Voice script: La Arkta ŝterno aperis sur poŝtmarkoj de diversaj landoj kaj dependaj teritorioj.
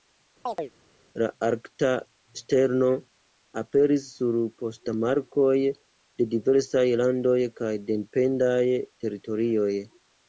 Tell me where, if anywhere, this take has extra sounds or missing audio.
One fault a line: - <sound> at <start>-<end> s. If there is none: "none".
- chirp at 0.5-0.7 s